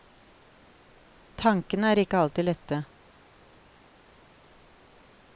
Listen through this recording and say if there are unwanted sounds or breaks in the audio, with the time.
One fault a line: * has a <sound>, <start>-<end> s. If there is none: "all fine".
all fine